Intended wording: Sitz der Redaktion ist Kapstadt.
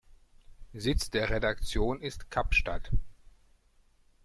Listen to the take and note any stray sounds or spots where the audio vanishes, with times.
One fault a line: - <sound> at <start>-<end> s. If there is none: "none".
none